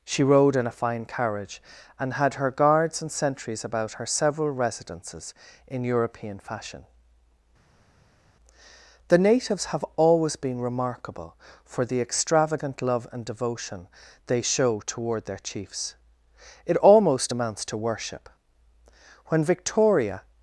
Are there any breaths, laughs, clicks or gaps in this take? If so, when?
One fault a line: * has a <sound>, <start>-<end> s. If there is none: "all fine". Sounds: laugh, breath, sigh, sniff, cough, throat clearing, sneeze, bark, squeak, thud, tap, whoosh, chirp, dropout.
all fine